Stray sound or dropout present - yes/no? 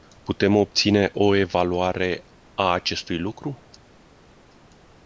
no